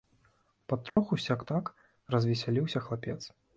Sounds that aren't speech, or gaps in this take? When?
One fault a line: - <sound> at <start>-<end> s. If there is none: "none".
- dropout at 0.9-1.0 s